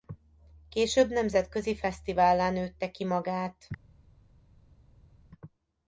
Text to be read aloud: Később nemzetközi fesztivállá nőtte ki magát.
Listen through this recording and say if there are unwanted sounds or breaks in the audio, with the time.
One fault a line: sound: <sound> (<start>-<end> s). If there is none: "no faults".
no faults